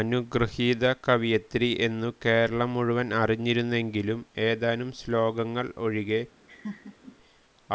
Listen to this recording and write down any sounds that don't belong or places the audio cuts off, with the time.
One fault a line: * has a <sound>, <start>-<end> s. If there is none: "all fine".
* has a laugh, 6.5-7.2 s